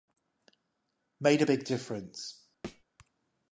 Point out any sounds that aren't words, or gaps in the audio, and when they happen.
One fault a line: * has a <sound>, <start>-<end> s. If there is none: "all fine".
* has a thud, 2.6-2.8 s